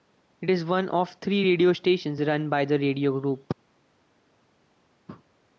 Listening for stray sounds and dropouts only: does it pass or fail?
pass